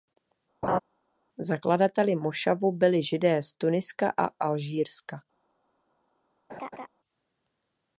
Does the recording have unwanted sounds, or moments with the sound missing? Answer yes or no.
yes